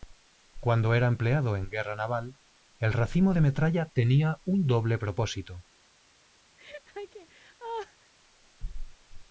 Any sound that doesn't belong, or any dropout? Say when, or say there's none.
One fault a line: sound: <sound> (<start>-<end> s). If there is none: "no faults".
sound: laugh (6.6-8.1 s)